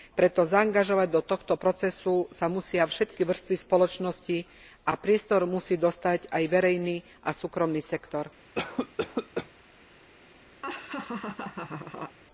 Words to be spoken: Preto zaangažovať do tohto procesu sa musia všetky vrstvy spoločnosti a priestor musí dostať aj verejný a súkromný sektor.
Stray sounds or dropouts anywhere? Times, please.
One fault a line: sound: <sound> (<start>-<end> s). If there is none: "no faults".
sound: cough (8.6-9.5 s)
sound: laugh (10.6-12.2 s)